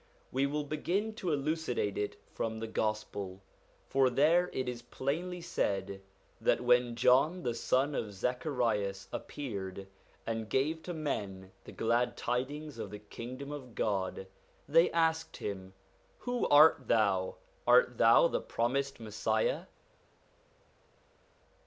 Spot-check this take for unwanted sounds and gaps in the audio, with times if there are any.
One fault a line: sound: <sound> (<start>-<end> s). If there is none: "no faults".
no faults